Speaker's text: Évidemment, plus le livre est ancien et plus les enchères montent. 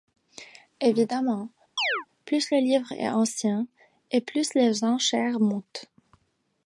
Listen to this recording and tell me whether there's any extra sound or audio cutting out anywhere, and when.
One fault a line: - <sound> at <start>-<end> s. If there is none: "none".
- chirp at 1.8-2.1 s